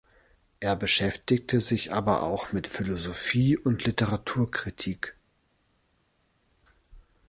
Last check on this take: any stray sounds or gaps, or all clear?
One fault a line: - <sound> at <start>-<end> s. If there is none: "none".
none